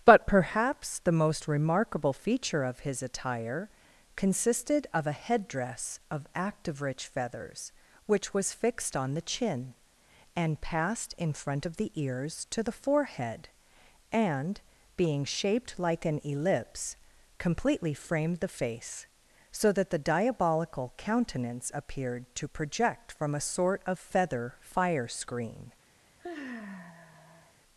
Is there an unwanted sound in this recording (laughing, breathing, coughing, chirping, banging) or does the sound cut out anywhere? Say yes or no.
yes